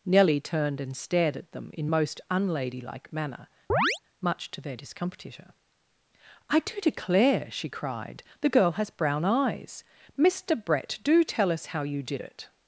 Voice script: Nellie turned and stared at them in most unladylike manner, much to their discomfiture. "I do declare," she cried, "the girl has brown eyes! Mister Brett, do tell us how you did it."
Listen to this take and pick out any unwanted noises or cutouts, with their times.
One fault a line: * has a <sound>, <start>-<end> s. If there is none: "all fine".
* has a chirp, 3.7-4.0 s